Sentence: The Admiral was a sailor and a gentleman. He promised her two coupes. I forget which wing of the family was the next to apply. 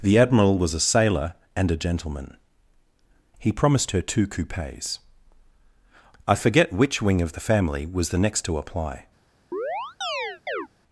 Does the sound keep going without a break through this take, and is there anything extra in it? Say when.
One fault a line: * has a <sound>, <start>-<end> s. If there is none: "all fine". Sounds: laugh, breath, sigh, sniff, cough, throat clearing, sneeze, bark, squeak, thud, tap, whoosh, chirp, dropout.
* has a chirp, 9.5-10.7 s